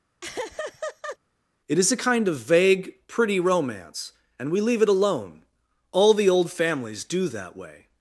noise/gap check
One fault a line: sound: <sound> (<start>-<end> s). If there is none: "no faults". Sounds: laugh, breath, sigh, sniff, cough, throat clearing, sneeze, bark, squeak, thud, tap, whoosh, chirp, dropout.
sound: laugh (0.2-1.2 s)